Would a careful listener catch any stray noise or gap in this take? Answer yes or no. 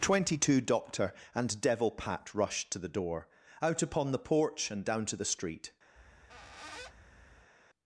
yes